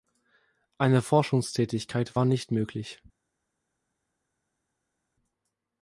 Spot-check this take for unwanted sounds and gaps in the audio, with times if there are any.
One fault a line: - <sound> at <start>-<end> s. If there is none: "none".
none